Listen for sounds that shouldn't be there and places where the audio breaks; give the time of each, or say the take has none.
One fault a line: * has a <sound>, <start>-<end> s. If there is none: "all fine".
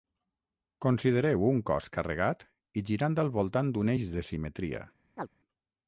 * has a chirp, 5.2-5.3 s